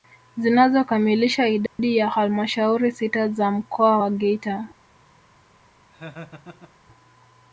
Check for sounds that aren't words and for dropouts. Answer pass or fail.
fail